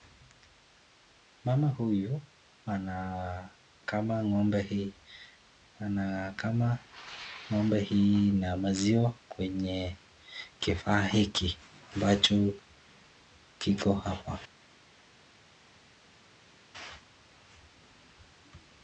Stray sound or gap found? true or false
false